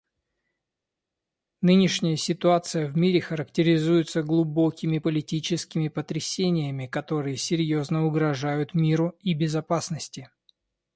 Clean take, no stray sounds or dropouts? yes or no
yes